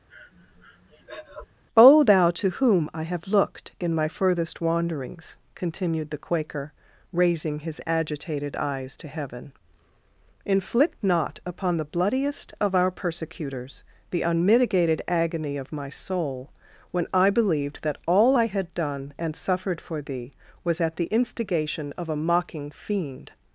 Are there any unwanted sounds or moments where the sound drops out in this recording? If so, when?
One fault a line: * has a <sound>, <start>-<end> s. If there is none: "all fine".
* has a breath, 0.1-1.5 s